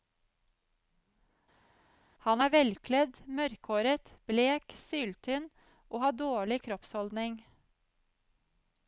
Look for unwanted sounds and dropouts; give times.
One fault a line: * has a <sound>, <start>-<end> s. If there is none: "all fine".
all fine